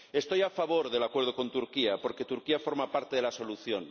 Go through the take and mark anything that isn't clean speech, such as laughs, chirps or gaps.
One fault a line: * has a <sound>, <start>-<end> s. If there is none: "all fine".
all fine